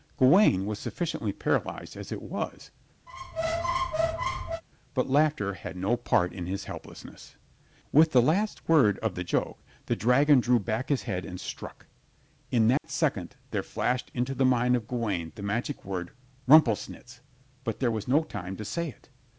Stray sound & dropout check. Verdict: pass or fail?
fail